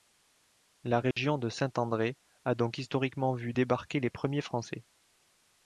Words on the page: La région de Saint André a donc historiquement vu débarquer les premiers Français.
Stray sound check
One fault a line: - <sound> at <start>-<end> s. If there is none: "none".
- dropout at 1.1-1.2 s